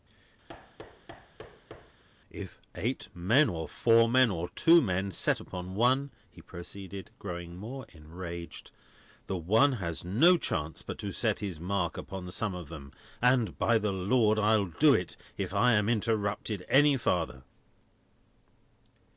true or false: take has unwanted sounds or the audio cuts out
true